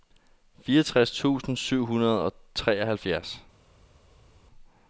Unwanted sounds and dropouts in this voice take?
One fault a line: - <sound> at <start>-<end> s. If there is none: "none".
none